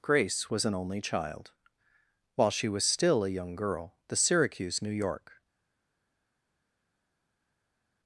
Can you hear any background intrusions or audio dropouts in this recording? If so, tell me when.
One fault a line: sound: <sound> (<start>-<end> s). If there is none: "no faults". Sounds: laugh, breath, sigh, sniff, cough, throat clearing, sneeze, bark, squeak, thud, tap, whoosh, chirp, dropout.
no faults